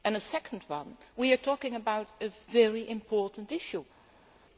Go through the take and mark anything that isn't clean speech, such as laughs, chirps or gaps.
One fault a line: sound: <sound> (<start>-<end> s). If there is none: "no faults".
no faults